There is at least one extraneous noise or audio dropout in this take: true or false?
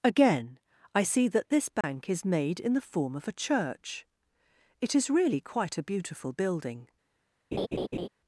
true